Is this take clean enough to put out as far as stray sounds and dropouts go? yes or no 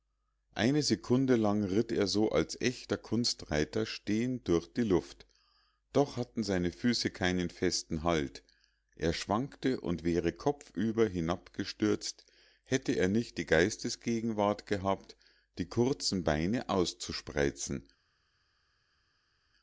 yes